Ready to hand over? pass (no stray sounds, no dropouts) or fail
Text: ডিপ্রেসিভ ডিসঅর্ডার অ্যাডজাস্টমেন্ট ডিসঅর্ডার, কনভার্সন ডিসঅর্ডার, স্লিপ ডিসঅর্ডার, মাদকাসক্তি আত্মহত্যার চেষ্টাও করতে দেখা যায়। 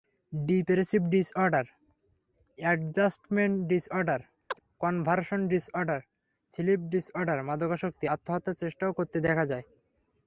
fail